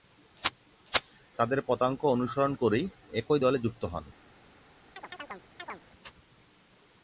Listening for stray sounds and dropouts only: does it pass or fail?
fail